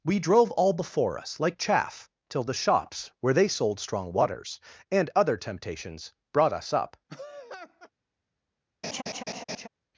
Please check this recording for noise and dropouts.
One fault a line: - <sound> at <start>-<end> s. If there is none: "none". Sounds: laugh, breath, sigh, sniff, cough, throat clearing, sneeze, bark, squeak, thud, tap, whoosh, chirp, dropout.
- laugh at 7.1-7.9 s
- laugh at 8.8-9.7 s